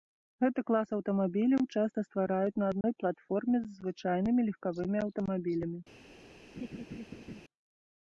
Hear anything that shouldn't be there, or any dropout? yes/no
yes